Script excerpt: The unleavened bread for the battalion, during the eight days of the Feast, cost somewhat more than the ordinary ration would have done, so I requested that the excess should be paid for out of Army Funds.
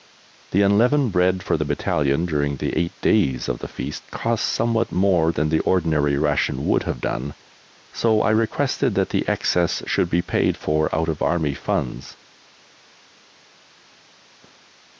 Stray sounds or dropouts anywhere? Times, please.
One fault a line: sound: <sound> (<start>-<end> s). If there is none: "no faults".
no faults